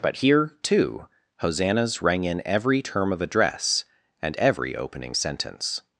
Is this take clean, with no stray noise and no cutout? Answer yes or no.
yes